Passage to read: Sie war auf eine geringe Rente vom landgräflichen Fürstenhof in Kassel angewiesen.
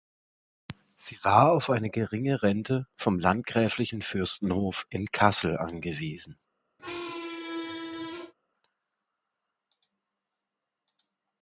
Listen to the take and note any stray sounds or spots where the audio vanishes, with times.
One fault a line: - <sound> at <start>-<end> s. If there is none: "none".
- squeak at 6.8-8.3 s